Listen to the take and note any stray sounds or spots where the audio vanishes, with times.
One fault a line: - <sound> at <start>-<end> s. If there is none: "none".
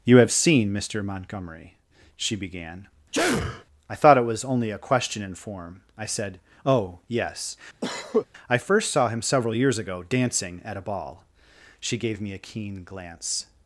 - sneeze at 3.1-3.6 s
- cough at 7.8-8.3 s